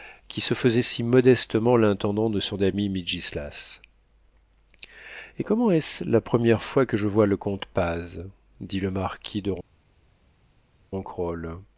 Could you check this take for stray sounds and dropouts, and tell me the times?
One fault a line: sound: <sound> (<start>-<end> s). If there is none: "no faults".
no faults